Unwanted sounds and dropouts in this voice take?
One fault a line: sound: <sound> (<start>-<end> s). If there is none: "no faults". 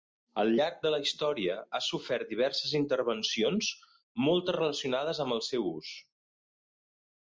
no faults